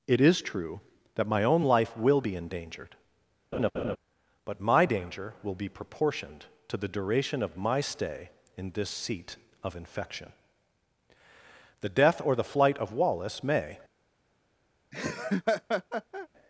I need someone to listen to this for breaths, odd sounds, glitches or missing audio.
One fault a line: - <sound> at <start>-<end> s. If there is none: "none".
- laugh at 3.5-4.0 s
- laugh at 14.9-16.3 s